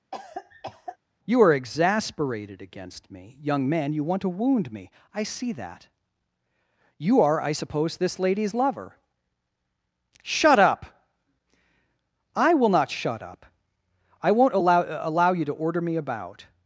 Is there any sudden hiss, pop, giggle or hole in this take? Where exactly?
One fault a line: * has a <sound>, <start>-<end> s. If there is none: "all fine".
* has a cough, 0.1-1.0 s